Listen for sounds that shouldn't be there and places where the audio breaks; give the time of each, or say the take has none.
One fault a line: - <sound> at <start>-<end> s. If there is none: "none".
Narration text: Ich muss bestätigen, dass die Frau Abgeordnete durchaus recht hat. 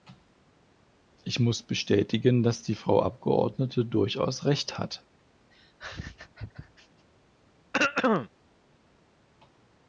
- laugh at 5.5-7.1 s
- throat clearing at 7.7-8.3 s